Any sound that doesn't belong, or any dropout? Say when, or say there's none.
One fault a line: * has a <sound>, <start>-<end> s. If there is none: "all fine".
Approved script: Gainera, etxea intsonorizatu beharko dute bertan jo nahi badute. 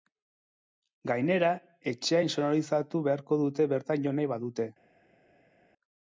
all fine